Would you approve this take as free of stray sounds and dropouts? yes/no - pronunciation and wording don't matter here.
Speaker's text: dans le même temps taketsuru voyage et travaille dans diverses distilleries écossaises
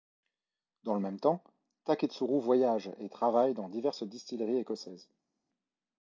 yes